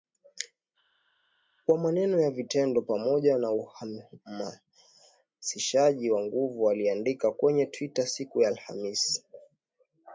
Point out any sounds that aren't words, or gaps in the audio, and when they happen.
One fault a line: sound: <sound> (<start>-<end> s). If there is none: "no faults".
no faults